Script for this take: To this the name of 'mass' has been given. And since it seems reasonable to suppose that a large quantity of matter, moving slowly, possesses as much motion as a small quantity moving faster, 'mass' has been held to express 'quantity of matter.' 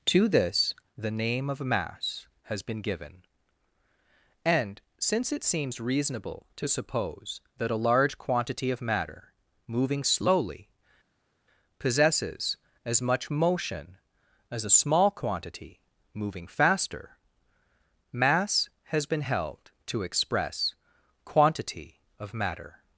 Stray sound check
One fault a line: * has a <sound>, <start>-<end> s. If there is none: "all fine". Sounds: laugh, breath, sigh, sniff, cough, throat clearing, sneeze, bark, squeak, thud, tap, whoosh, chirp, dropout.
all fine